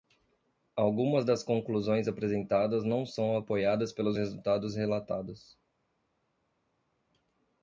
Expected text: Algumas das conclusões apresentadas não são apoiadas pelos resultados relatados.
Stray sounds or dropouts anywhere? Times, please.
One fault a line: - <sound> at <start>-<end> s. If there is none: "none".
none